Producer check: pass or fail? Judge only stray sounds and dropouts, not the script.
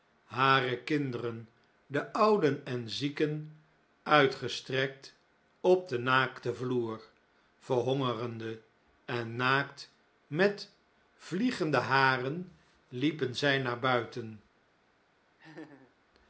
fail